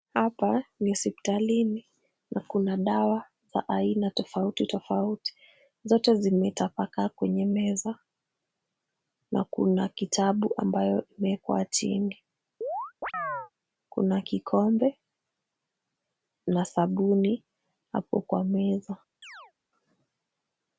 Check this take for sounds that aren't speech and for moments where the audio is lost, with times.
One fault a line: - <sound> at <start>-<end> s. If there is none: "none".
- chirp at 12.6-13.5 s
- chirp at 19.2-19.5 s